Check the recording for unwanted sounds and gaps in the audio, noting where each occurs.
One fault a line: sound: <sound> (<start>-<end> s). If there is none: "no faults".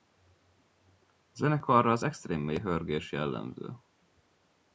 no faults